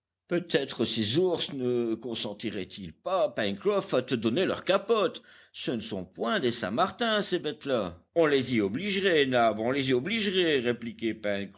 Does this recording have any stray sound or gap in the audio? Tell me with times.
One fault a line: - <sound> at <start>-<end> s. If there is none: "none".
none